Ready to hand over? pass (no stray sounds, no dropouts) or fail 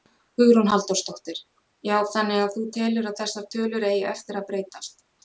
pass